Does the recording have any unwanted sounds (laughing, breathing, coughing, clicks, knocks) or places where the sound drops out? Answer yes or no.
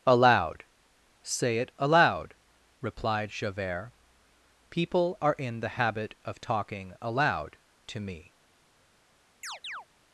yes